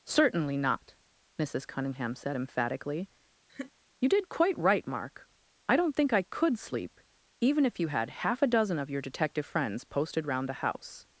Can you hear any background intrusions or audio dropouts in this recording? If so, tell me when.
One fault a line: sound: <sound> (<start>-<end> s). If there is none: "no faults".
sound: laugh (3.5-3.7 s)